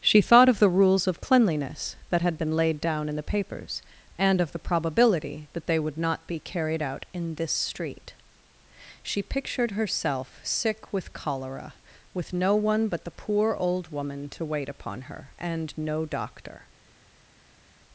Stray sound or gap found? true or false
false